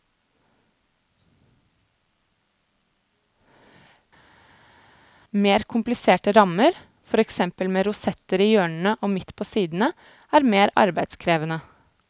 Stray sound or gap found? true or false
false